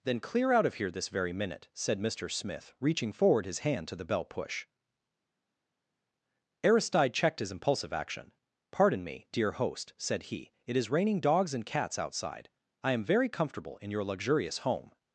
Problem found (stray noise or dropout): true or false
false